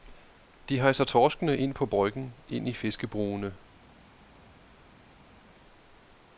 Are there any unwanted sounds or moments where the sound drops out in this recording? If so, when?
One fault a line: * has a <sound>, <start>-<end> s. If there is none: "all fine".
all fine